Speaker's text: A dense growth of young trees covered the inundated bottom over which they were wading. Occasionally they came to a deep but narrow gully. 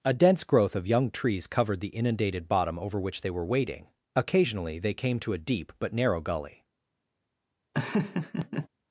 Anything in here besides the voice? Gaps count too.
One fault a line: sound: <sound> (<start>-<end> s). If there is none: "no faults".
sound: laugh (7.7-8.7 s)